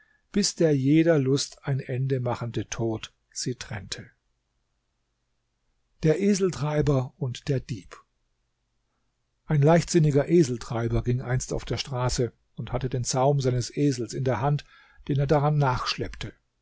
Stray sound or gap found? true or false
false